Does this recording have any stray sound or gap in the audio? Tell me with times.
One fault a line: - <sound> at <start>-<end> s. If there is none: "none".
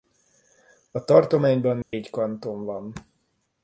- dropout at 1.8-1.9 s